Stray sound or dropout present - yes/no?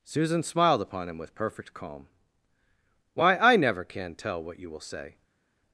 no